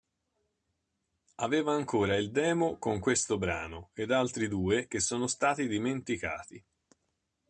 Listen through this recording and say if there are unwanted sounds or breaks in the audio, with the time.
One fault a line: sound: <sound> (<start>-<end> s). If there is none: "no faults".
no faults